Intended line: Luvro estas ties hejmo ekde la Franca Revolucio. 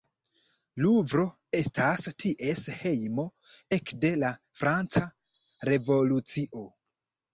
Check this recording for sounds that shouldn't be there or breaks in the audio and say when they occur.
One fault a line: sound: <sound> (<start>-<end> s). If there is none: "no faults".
no faults